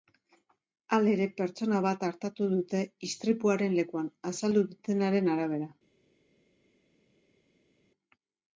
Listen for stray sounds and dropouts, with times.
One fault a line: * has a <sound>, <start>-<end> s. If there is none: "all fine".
all fine